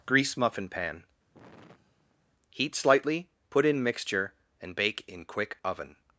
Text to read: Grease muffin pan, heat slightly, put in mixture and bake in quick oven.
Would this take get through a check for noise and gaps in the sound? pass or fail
fail